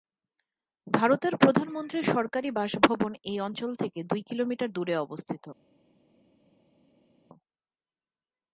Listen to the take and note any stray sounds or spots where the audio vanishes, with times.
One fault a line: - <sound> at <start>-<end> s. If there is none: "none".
none